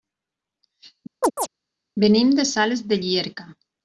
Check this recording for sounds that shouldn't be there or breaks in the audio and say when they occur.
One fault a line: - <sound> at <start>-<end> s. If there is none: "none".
- chirp at 1.2-1.5 s